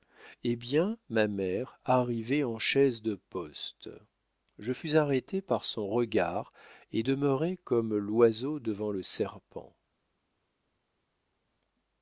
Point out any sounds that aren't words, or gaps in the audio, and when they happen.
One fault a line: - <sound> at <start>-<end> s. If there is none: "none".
none